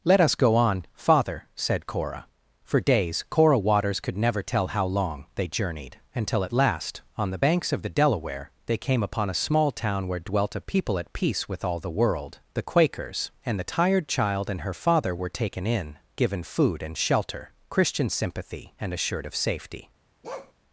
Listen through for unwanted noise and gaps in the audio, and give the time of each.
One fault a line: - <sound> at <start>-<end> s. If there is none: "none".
- bark at 20.2-20.5 s